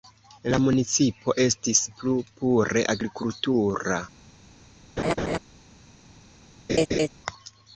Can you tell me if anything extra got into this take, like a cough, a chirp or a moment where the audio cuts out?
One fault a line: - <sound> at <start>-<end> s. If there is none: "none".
- laugh at 5.0-5.4 s
- laugh at 6.7-7.1 s